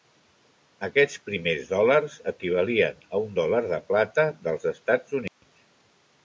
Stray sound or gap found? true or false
true